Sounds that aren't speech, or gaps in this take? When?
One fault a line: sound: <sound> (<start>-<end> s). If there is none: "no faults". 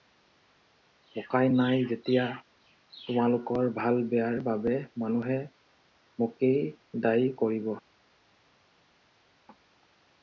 no faults